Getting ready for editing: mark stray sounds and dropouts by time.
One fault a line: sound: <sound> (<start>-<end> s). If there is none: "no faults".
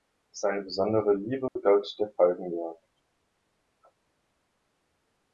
sound: dropout (1.5-1.6 s)